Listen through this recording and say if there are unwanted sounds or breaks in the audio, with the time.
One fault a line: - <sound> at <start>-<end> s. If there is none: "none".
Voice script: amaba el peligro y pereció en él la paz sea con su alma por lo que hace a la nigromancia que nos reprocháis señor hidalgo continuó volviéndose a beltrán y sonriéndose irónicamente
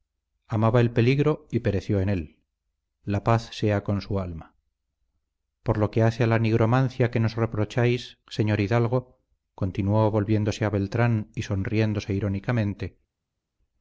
none